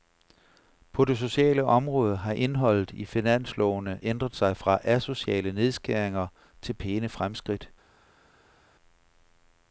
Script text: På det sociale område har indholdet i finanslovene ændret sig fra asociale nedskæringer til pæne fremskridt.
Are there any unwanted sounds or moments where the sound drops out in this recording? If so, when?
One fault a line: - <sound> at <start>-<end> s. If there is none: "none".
none